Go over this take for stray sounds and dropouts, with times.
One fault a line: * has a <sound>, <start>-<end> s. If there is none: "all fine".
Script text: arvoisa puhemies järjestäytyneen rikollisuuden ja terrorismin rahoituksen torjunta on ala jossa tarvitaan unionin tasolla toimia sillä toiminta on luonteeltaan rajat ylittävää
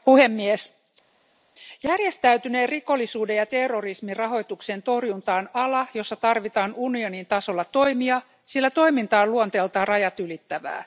all fine